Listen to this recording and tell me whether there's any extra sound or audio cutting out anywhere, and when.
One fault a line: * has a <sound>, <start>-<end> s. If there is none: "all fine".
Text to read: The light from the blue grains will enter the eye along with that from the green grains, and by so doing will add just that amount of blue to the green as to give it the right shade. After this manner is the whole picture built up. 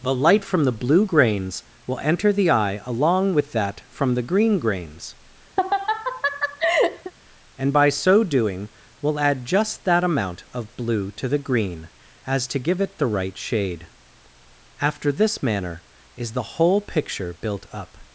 * has a laugh, 5.6-7.1 s